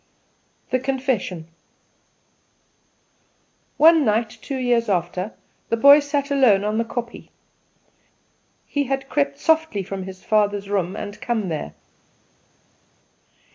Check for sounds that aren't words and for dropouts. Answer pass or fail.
pass